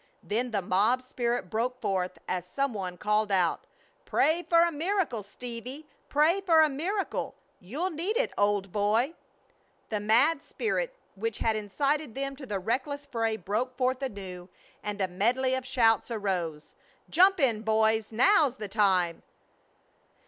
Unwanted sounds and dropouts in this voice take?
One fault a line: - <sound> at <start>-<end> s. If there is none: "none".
none